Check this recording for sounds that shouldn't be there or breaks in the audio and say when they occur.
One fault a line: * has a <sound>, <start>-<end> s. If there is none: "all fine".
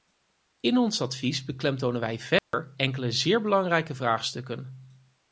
* has a dropout, 2.4-2.5 s